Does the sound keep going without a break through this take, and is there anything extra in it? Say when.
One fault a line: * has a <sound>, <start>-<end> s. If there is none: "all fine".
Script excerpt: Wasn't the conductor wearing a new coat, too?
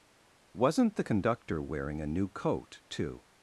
all fine